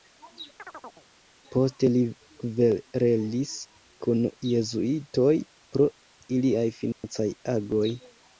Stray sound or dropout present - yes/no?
yes